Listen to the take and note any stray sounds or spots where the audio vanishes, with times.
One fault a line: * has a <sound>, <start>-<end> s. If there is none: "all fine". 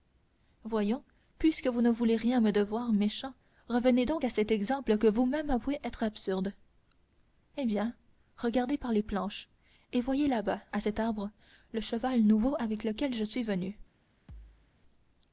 * has a thud, 14.3-14.7 s